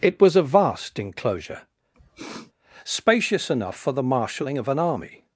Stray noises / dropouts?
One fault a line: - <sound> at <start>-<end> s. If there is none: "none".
- sniff at 1.9-2.5 s